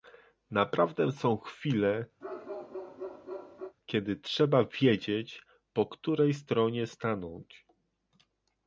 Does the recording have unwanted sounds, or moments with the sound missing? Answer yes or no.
yes